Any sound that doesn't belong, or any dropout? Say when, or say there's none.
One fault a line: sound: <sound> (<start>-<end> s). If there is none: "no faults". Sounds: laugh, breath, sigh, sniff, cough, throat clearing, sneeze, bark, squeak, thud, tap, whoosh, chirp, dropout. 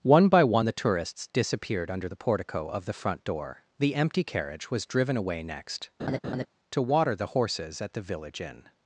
sound: laugh (6.0-6.5 s)